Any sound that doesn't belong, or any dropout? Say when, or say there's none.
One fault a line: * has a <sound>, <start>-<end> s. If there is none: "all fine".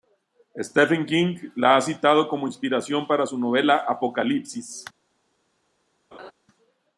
* has a laugh, 6.1-6.3 s